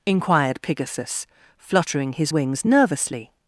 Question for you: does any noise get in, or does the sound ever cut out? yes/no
no